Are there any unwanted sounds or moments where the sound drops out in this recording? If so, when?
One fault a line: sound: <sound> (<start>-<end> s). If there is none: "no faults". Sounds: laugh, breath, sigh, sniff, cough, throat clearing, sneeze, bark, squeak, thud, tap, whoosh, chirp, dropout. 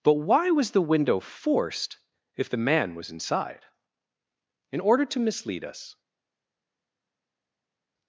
no faults